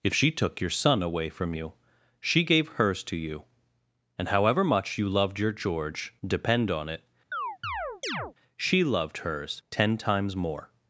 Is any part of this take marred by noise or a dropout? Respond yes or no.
yes